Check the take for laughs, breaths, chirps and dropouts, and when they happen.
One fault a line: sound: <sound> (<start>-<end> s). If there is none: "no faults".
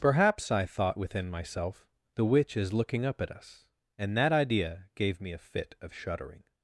no faults